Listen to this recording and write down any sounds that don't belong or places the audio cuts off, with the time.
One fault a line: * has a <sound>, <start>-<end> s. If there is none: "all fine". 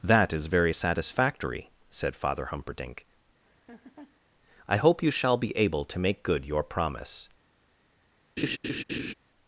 * has a laugh, 3.4-4.2 s
* has a laugh, 8.4-9.1 s